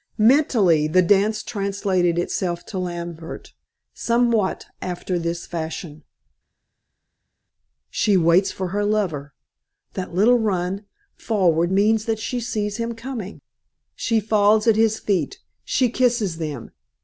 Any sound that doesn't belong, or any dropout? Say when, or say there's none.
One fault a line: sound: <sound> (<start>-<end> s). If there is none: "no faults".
no faults